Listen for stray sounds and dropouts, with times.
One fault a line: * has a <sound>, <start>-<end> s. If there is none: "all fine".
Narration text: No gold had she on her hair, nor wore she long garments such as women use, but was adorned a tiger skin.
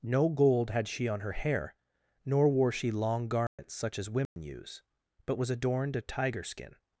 * has a dropout, 3.5-3.6 s
* has a dropout, 4.3-4.4 s